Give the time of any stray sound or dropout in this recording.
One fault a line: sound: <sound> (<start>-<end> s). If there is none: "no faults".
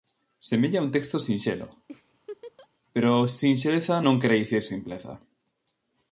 sound: laugh (1.9-2.7 s)